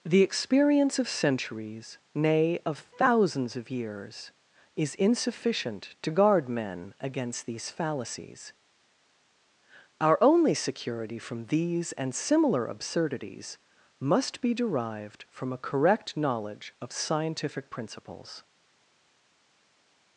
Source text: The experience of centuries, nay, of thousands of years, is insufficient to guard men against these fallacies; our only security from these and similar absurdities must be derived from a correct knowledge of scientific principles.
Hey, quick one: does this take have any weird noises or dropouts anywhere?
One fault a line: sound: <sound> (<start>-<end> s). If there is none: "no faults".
no faults